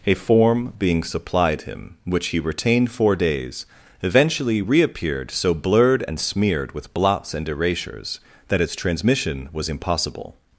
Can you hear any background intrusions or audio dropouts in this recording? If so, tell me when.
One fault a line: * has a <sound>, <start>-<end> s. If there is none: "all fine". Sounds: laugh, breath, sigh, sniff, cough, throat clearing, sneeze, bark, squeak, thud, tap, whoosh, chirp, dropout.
all fine